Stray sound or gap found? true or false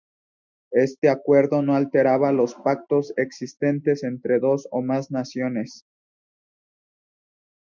false